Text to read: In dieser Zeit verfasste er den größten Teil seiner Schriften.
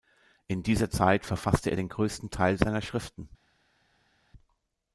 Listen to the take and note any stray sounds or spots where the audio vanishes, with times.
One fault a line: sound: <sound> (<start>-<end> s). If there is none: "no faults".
no faults